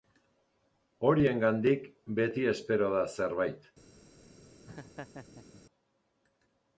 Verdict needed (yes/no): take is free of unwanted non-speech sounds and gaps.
no